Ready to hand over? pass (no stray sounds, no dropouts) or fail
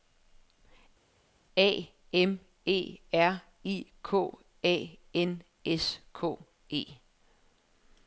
pass